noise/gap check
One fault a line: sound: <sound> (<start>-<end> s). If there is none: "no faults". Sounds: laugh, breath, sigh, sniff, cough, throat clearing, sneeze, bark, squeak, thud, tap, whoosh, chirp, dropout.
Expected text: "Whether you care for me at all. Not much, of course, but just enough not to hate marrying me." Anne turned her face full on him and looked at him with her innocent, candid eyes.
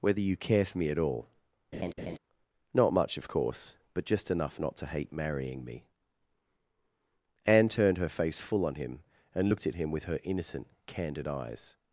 sound: laugh (1.7-2.2 s)